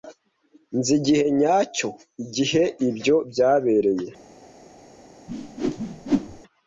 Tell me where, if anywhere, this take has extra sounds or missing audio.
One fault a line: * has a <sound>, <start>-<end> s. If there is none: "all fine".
* has a whoosh, 5.3-6.4 s